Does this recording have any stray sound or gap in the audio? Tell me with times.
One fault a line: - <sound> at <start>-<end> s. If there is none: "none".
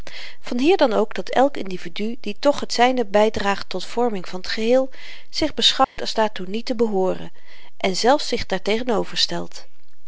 - dropout at 5.8-6.0 s